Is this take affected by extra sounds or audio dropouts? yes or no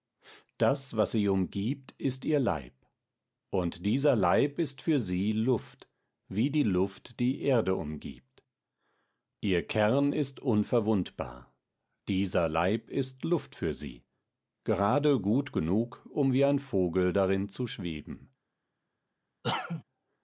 yes